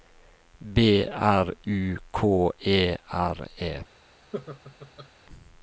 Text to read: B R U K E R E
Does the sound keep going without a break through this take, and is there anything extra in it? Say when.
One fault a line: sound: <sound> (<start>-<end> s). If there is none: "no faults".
sound: laugh (4.3-5.1 s)